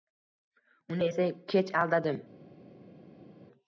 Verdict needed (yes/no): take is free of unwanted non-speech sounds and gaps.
yes